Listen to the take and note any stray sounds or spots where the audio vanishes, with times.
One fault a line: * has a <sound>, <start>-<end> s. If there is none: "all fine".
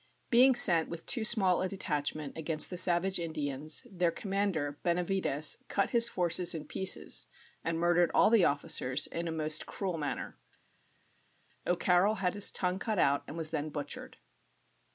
all fine